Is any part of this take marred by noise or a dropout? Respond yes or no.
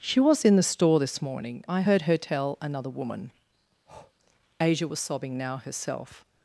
yes